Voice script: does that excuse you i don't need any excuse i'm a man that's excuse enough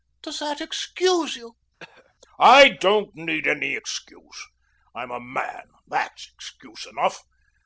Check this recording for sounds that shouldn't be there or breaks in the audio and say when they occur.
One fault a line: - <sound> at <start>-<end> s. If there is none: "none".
- throat clearing at 1.8-2.1 s